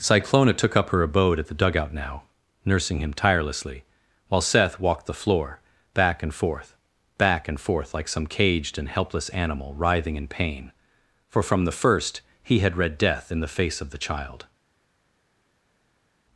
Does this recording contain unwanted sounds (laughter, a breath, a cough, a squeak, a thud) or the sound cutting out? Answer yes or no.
no